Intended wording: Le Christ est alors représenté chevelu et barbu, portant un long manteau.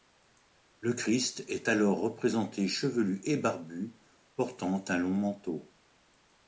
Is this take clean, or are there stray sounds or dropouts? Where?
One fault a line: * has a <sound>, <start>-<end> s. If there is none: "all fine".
all fine